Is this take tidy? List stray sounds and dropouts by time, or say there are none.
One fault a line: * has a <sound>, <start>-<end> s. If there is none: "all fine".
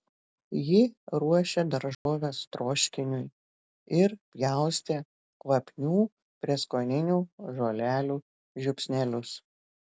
* has a dropout, 1.9-2.1 s